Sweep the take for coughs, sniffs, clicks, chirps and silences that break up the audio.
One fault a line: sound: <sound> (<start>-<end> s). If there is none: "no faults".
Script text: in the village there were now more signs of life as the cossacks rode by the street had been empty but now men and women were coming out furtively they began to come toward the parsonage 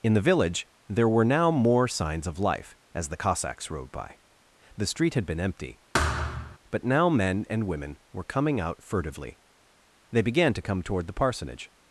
sound: thud (5.9-6.6 s)